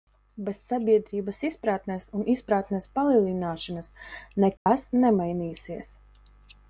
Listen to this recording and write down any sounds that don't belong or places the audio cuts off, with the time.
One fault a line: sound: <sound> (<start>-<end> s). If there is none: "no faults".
sound: dropout (4.6-4.7 s)